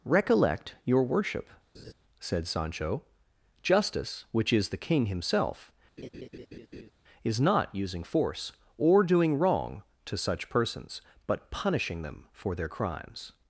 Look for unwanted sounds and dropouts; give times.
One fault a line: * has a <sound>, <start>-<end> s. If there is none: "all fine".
* has a laugh, 1.7-1.9 s
* has a laugh, 6.0-6.9 s